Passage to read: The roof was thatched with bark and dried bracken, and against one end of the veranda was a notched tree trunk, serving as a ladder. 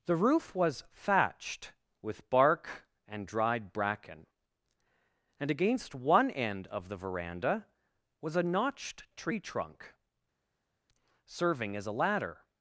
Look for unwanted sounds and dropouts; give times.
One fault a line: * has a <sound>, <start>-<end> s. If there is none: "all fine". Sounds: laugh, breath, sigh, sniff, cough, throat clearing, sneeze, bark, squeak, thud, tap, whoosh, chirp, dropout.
all fine